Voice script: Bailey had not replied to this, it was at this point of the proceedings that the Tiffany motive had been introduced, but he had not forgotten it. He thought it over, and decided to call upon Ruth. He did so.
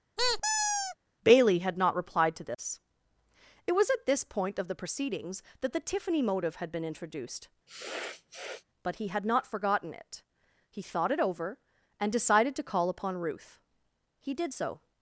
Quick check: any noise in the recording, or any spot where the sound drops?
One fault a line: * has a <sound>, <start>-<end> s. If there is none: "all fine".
* has a squeak, 0.2-1.0 s
* has a sniff, 7.7-8.6 s